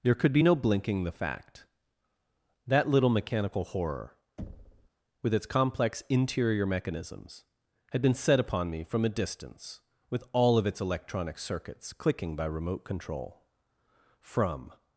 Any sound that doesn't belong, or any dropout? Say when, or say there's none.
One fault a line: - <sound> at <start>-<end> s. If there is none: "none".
- thud at 4.4-4.9 s